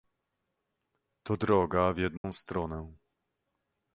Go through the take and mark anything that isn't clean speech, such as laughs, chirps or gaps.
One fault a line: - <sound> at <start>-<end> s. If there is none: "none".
- dropout at 2.2-2.2 s